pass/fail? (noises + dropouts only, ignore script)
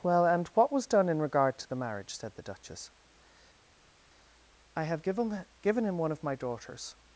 pass